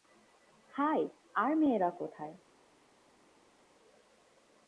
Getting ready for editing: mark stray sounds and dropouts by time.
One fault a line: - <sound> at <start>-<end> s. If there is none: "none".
none